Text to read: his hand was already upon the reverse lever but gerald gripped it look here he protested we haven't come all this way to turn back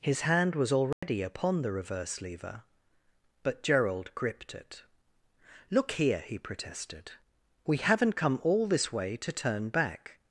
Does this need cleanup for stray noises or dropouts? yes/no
yes